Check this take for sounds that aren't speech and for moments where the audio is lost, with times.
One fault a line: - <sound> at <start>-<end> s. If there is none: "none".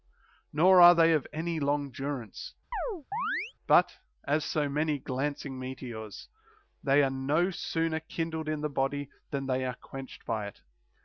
- chirp at 2.7-3.5 s